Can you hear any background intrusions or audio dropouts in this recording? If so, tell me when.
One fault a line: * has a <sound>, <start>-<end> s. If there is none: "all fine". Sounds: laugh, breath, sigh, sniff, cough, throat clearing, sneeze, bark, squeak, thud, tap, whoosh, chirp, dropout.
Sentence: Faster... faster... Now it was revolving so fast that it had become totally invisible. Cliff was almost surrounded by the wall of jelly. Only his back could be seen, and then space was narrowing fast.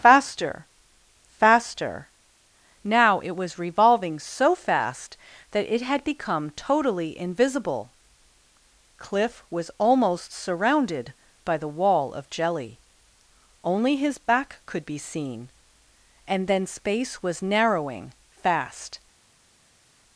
all fine